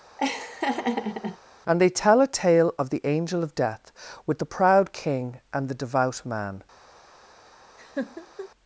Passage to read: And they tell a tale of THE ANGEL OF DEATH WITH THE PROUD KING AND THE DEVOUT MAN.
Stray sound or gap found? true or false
true